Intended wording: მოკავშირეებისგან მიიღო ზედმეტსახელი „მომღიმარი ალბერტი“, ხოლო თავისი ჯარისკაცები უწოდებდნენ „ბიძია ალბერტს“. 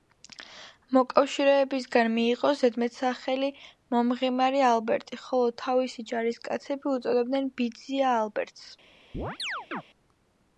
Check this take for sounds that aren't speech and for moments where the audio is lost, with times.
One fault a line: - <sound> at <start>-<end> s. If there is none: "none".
- chirp at 9.1-9.8 s